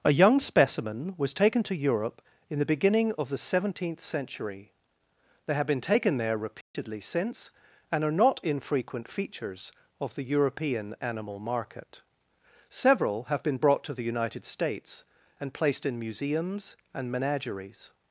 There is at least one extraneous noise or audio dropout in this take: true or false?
true